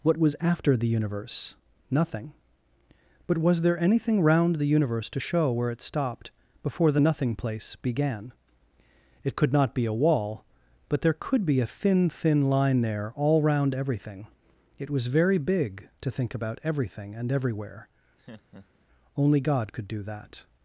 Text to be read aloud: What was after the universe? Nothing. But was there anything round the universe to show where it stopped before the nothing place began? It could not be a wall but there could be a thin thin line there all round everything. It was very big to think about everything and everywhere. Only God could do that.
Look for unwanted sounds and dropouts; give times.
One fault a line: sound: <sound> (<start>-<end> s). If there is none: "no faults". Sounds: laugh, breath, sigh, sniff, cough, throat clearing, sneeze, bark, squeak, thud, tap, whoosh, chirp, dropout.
sound: laugh (18.2-18.9 s)